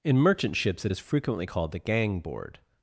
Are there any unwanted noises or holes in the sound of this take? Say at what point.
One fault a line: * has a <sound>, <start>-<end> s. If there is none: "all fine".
all fine